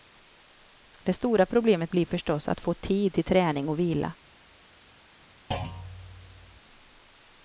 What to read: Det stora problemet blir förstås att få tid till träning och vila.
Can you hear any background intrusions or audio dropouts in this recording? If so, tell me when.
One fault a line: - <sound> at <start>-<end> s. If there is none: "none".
- thud at 5.5-6.6 s